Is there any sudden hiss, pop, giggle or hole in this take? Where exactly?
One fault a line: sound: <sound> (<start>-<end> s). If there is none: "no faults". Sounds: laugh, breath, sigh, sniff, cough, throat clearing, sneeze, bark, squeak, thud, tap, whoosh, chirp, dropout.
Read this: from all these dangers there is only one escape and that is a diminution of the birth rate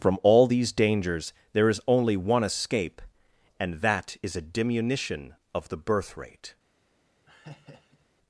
sound: laugh (7.3-8.1 s)